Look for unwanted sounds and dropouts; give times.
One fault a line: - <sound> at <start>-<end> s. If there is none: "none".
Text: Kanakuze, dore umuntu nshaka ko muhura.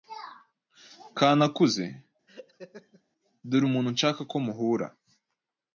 - laugh at 2.3-3.0 s